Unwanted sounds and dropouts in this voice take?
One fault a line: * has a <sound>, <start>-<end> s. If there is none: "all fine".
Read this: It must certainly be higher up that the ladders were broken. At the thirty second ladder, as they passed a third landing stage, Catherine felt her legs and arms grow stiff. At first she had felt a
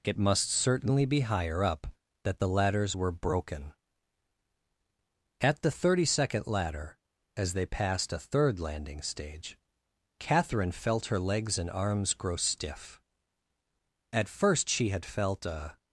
all fine